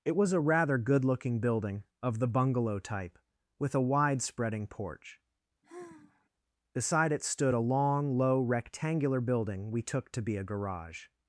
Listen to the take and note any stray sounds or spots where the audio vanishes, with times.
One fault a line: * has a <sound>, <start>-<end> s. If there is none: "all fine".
* has a sigh, 5.6-6.3 s